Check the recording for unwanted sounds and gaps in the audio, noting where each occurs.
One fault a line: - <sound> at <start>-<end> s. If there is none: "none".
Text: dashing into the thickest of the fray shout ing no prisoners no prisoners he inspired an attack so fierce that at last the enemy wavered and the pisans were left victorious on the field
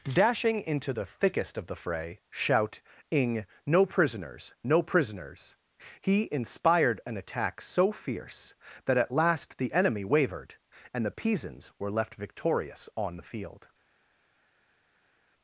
none